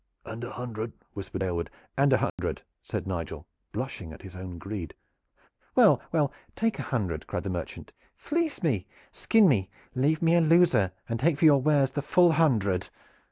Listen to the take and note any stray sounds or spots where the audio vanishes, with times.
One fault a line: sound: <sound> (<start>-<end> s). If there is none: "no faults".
sound: dropout (2.3-2.4 s)